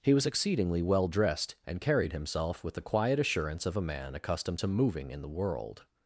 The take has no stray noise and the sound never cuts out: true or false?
true